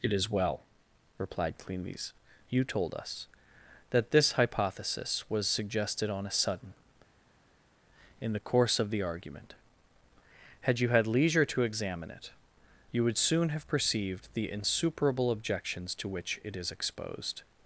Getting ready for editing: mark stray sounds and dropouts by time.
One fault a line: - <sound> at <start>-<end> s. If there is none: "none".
none